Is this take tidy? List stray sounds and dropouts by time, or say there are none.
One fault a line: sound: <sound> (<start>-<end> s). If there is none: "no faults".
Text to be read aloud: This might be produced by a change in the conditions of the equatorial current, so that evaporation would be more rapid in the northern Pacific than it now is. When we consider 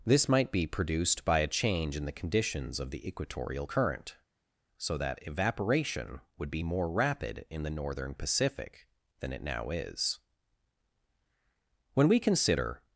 no faults